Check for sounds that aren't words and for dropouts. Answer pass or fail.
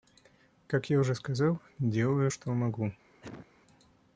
fail